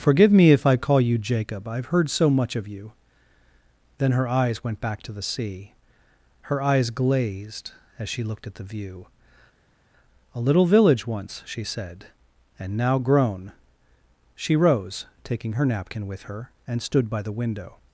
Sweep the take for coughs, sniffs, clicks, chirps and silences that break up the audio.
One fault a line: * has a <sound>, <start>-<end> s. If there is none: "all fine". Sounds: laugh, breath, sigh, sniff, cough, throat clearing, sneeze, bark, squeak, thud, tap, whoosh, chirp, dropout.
all fine